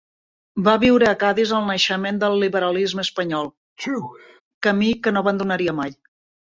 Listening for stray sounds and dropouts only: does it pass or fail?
fail